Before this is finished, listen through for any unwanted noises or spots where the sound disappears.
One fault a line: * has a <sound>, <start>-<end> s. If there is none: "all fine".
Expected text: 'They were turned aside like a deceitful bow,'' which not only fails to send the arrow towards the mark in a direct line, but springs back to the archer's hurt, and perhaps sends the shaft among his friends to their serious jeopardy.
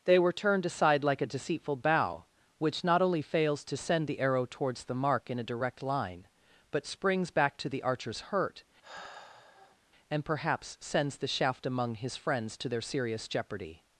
* has a sigh, 8.8-9.8 s